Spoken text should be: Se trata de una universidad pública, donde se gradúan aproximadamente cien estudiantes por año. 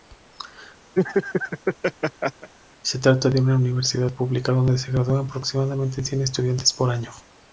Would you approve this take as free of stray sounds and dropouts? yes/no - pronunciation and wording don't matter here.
no